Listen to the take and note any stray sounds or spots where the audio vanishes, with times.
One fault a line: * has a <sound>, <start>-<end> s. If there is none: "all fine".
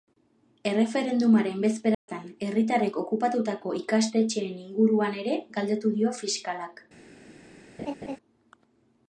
* has a dropout, 1.9-2.1 s
* has a laugh, 7.8-8.2 s